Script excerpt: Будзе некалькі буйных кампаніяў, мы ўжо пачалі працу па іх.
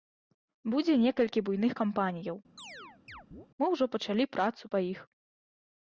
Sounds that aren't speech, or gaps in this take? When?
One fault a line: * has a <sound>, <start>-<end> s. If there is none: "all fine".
* has a chirp, 2.6-3.5 s